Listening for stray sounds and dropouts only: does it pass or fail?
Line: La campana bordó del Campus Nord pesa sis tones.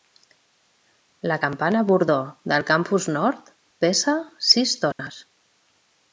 fail